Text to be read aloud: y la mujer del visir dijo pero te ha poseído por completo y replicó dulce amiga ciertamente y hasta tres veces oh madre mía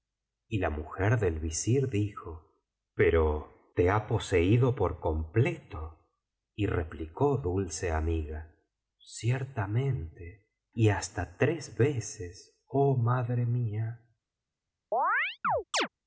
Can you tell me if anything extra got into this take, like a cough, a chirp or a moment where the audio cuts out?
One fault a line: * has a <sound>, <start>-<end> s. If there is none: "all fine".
* has a chirp, 14.9-15.9 s